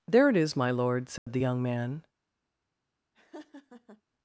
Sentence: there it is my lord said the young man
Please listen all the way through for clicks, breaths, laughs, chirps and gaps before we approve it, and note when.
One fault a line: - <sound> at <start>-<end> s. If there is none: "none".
- dropout at 1.2-1.3 s
- laugh at 3.1-4.0 s